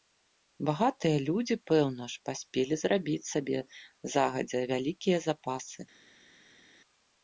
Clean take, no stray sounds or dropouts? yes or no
yes